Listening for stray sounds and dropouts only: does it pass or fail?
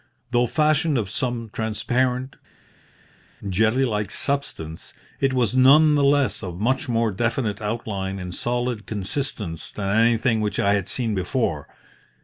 pass